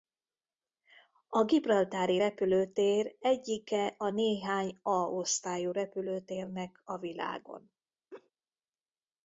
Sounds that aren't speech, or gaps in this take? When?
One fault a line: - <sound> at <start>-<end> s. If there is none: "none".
- laugh at 8.1-8.3 s